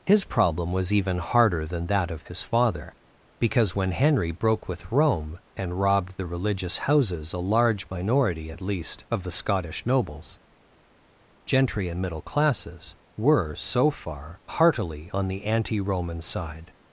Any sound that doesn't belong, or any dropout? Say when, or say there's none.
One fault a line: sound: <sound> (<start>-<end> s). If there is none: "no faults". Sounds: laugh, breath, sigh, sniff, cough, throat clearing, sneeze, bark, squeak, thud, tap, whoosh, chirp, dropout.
no faults